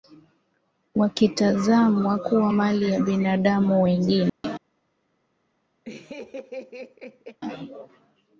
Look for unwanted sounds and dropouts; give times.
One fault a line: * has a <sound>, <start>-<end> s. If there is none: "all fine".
* has a dropout, 4.3-4.4 s
* has a laugh, 5.8-7.4 s